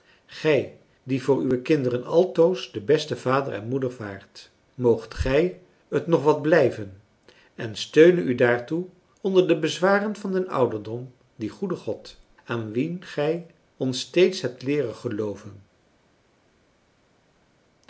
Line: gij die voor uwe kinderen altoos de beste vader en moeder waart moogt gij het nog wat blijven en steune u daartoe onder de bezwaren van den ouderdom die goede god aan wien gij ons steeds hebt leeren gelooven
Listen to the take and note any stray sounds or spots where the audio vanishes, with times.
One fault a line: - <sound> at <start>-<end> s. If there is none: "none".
none